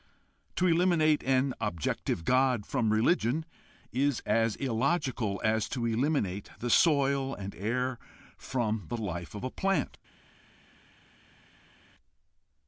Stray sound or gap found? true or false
false